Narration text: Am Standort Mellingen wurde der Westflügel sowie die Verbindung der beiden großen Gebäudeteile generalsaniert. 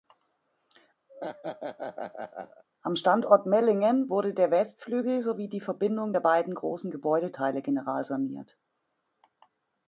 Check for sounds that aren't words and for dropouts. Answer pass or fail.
fail